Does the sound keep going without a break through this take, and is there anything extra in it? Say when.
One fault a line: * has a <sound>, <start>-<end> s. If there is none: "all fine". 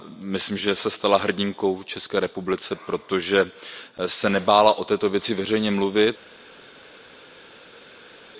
all fine